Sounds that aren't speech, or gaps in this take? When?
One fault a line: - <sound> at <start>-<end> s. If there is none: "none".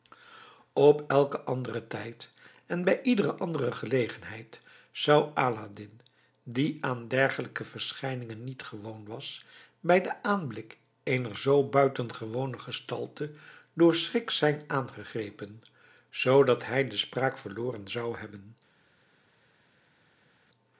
none